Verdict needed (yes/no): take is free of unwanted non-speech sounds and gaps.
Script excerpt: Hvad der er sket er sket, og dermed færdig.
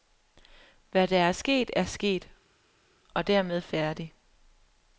yes